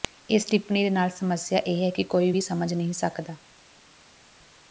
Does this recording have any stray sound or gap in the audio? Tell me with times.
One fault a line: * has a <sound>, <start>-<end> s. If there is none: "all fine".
all fine